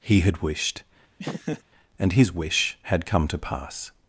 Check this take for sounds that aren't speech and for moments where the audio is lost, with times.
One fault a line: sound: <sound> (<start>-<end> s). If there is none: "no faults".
sound: laugh (1.2-1.6 s)